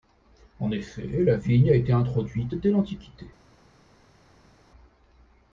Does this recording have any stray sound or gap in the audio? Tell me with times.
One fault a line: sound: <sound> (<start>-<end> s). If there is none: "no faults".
no faults